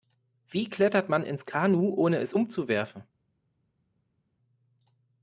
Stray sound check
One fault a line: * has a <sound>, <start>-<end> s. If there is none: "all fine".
all fine